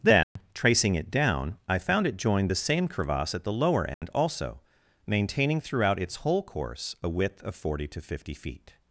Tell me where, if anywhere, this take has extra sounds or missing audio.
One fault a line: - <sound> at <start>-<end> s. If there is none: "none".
- dropout at 0.2-0.4 s
- dropout at 3.9-4.0 s